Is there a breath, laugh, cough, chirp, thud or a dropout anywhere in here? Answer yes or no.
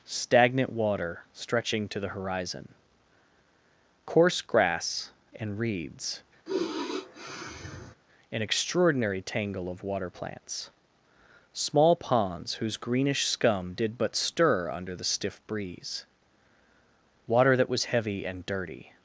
yes